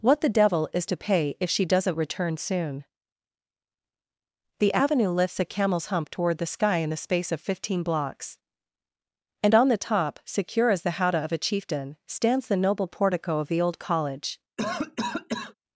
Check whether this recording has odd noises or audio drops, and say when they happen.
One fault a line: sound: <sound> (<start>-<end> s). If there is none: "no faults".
sound: cough (14.6-15.5 s)